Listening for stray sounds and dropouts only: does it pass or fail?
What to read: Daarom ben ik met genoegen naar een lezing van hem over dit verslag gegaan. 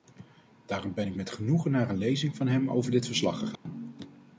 fail